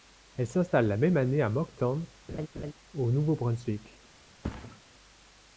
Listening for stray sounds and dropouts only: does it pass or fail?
fail